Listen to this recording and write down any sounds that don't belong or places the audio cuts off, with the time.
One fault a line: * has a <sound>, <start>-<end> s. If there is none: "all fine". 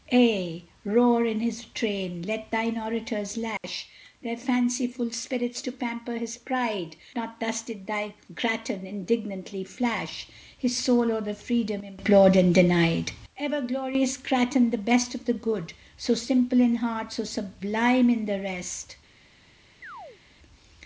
* has a dropout, 3.6-3.6 s
* has a chirp, 19.8-20.2 s